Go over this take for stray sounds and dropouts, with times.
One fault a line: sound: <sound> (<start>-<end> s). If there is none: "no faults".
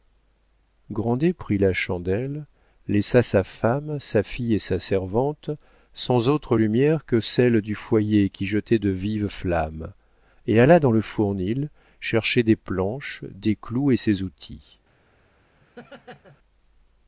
sound: laugh (15.6-16.4 s)